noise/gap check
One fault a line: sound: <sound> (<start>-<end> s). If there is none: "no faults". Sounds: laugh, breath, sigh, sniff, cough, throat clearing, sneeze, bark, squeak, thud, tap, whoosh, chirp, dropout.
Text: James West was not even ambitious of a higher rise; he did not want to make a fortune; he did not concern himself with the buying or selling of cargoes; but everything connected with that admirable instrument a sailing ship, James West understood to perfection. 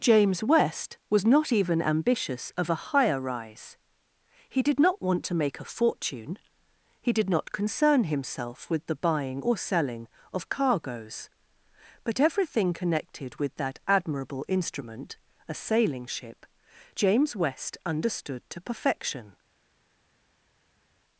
no faults